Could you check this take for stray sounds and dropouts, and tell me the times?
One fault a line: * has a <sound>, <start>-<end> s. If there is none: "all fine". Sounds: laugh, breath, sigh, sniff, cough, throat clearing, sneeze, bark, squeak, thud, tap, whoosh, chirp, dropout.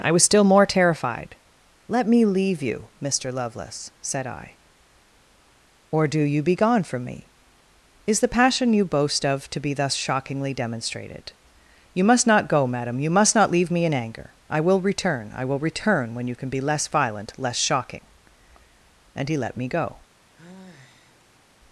* has a sigh, 20.3-21.5 s